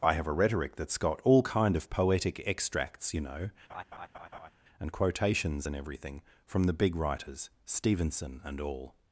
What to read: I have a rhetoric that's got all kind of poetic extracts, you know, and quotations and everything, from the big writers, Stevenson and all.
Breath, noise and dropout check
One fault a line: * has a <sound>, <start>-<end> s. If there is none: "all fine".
* has a laugh, 3.7-4.5 s